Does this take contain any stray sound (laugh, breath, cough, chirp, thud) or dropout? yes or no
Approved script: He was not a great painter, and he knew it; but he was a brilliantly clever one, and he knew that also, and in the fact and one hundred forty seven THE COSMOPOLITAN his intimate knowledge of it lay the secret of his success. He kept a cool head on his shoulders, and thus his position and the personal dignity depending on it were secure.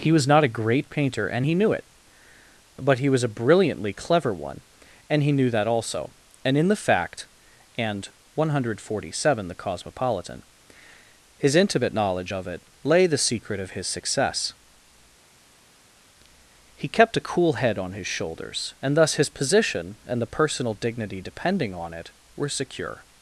no